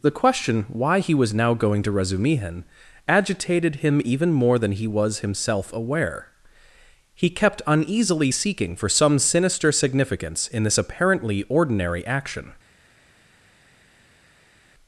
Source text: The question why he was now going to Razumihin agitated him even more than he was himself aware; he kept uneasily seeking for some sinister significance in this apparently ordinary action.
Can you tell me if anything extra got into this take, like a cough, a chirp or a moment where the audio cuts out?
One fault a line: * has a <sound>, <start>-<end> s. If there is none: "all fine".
all fine